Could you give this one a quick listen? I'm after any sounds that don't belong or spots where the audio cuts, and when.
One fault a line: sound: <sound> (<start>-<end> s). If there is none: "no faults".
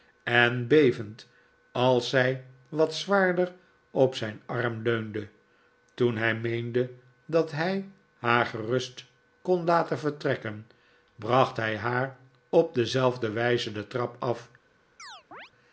sound: chirp (15.0-15.5 s)